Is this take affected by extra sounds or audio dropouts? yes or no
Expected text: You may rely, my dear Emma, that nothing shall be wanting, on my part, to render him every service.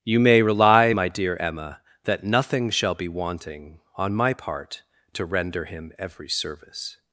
no